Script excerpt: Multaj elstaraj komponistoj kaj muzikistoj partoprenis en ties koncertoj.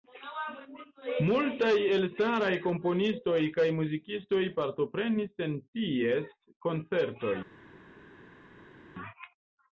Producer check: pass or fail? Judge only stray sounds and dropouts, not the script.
pass